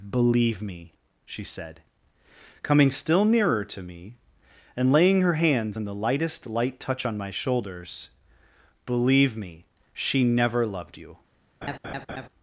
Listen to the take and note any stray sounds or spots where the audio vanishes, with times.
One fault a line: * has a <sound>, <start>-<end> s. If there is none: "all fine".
* has a laugh, 11.6-12.3 s